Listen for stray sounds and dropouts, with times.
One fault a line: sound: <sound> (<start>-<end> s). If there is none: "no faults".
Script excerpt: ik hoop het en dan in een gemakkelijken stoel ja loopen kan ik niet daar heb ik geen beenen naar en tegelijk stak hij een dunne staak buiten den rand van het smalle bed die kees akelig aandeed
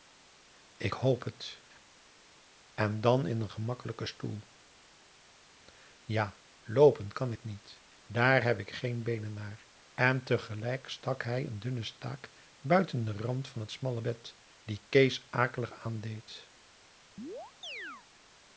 sound: chirp (17.2-18.1 s)